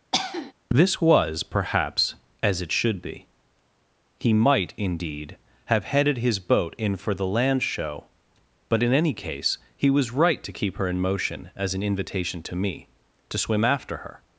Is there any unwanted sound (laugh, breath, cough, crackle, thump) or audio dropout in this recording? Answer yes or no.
yes